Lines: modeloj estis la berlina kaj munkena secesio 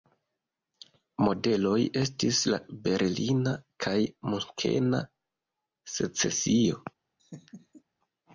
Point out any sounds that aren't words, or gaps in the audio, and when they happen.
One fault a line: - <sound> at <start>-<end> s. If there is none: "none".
- laugh at 7.2-7.8 s